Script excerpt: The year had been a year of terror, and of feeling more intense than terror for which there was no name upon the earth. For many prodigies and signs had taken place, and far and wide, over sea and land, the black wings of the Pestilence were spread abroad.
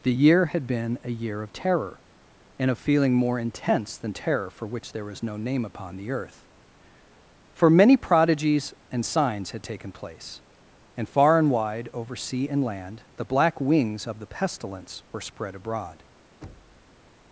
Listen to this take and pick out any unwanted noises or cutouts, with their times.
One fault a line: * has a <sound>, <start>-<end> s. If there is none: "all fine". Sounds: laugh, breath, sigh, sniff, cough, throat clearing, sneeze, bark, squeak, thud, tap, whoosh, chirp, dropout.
* has a thud, 16.4-17.0 s